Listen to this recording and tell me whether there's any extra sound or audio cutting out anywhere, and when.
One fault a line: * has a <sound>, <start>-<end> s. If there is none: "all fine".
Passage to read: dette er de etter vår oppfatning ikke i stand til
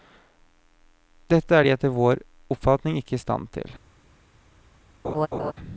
* has a laugh, 5.0-5.5 s